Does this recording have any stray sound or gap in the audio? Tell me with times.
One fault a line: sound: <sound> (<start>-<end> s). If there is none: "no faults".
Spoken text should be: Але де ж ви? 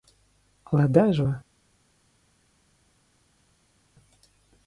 no faults